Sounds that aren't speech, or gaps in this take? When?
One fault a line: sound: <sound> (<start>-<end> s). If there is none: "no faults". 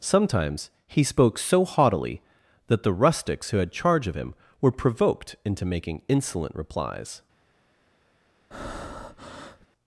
sound: breath (8.5-9.7 s)